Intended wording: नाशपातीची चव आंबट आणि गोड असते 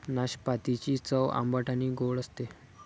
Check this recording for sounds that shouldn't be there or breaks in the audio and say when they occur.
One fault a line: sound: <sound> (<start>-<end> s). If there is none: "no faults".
no faults